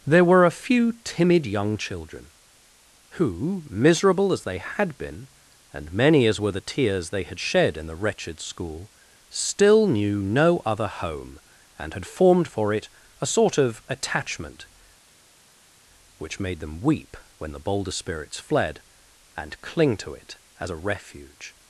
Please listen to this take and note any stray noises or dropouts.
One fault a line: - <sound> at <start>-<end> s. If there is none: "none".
none